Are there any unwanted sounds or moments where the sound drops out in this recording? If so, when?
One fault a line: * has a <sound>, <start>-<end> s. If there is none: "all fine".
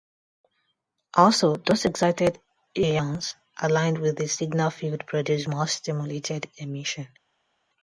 all fine